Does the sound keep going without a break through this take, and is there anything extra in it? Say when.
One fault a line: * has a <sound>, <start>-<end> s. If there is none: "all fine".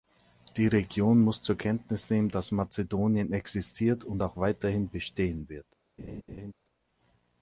* has a laugh, 6.0-6.5 s